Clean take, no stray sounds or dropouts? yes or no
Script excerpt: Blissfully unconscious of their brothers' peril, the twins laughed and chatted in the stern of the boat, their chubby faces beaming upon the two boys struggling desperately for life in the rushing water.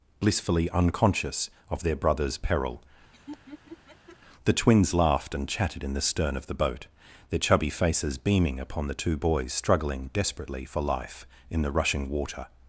no